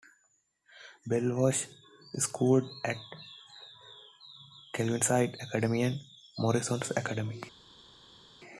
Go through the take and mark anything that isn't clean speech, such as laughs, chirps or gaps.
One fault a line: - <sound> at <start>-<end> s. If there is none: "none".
none